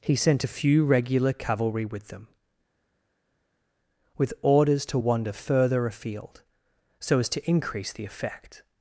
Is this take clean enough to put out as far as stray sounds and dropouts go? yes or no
yes